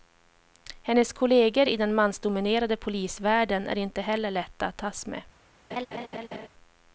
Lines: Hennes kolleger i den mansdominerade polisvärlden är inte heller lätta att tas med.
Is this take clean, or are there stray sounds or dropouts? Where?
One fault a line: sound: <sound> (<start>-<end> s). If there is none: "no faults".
sound: laugh (5.7-6.5 s)